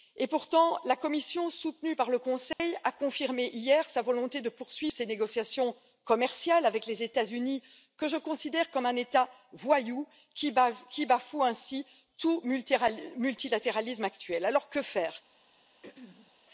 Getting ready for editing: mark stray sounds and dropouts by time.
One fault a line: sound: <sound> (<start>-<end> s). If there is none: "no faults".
sound: dropout (2.5-2.6 s)
sound: throat clearing (15.8-16.3 s)